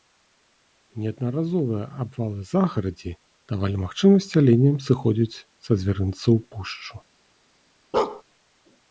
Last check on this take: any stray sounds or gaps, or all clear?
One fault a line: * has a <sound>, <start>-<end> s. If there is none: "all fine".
* has a bark, 7.9-8.2 s